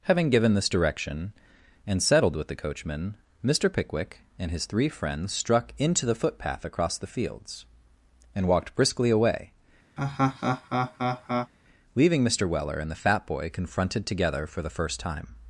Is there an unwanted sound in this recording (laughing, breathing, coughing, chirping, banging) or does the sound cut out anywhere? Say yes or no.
yes